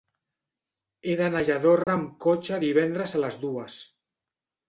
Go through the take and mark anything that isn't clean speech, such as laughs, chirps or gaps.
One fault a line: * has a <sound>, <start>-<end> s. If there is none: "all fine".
* has a dropout, 1.8-1.9 s